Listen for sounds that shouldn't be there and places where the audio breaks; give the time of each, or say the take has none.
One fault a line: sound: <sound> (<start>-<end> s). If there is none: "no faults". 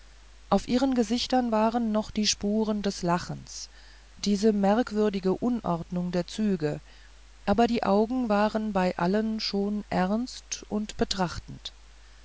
no faults